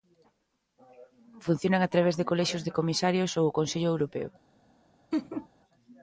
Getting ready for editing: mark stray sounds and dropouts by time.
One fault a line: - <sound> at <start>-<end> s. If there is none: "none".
- laugh at 5.1-5.5 s